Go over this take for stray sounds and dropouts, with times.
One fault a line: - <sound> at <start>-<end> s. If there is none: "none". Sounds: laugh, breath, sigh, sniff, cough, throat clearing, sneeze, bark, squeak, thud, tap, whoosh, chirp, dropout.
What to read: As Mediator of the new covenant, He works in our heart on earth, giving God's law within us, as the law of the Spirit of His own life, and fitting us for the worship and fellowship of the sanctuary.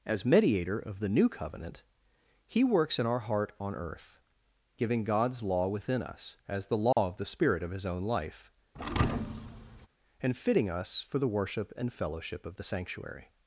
- dropout at 6.9-7.0 s
- thud at 8.7-9.9 s